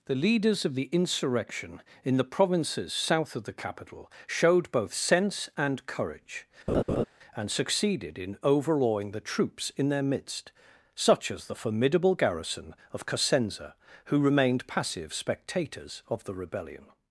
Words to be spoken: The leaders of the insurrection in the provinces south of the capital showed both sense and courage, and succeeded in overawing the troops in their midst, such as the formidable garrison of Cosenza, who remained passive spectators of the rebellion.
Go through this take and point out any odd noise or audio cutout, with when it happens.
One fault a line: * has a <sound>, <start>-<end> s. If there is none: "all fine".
* has a laugh, 6.7-7.0 s